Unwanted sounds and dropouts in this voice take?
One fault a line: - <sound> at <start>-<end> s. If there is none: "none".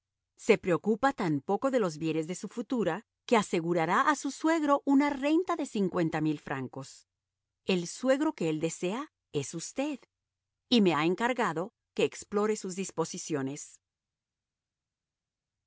none